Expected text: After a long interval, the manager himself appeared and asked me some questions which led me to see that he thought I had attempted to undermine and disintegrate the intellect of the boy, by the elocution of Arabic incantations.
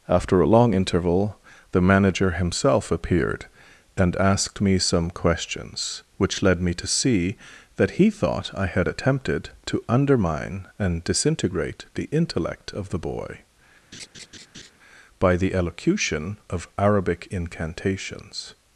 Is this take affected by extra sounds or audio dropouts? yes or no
yes